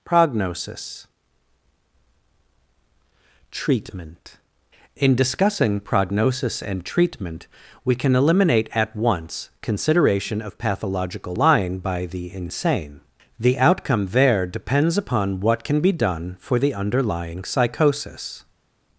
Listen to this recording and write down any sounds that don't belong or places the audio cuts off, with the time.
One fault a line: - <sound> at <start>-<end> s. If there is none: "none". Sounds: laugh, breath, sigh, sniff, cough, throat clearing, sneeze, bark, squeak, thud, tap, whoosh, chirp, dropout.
none